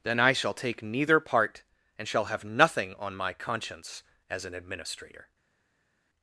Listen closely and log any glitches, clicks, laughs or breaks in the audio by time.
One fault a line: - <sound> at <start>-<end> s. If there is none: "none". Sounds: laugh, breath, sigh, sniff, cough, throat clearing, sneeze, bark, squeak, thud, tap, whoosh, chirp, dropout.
none